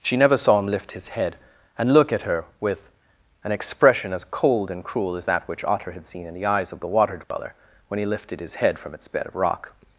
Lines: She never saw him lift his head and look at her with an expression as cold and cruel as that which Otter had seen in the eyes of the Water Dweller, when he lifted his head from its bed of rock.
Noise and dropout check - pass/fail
fail